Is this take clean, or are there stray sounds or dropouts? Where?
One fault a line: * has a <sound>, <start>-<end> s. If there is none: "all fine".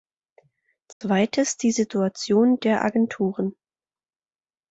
* has a dropout, 0.9-1.0 s